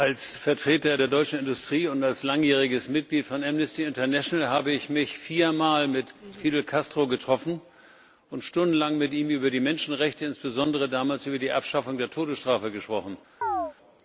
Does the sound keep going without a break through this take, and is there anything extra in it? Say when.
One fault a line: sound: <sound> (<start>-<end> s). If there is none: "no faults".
sound: chirp (13.4-13.7 s)